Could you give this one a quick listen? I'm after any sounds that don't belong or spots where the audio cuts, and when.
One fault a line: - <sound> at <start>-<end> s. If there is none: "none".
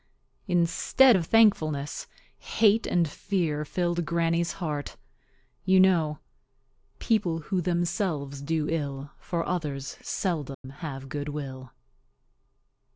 - dropout at 10.5-10.6 s